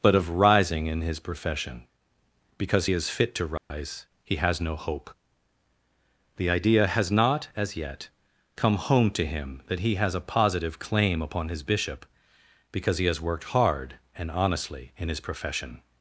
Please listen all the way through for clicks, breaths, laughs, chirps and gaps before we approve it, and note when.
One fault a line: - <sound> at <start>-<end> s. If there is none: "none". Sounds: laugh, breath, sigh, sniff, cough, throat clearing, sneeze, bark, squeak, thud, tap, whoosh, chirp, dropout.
- dropout at 3.6-3.7 s